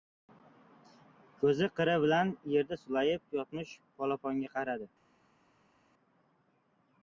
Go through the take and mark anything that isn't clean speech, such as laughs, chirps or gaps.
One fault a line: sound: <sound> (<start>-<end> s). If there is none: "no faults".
no faults